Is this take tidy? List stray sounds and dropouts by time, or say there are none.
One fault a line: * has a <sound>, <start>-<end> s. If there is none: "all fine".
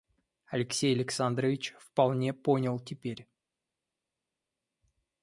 all fine